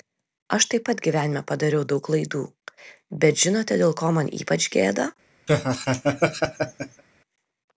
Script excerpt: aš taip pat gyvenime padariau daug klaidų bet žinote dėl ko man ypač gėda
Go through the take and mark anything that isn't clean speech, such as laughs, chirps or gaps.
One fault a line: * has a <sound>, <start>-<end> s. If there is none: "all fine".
* has a laugh, 5.5-7.0 s